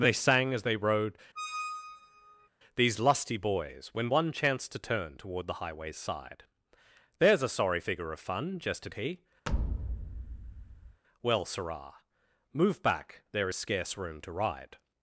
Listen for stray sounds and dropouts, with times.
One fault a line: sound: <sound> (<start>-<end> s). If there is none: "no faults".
sound: squeak (1.4-2.5 s)
sound: thud (9.5-11.0 s)